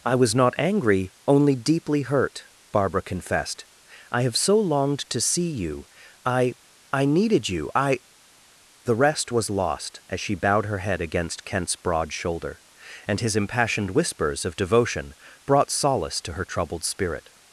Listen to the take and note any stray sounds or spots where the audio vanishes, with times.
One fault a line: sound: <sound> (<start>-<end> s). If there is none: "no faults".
no faults